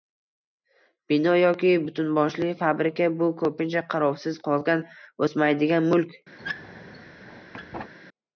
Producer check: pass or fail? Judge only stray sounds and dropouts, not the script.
fail